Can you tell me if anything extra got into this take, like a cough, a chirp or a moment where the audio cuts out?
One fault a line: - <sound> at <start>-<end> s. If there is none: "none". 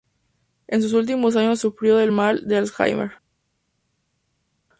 none